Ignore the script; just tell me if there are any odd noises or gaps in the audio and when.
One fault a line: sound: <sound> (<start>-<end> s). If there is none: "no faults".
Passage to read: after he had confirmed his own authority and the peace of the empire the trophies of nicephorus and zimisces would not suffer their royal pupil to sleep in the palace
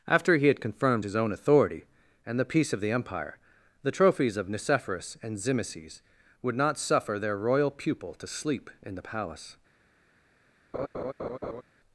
sound: laugh (10.7-11.6 s)